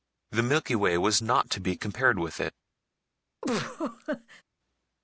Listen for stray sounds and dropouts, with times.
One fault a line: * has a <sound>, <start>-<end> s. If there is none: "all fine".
* has a laugh, 3.4-4.4 s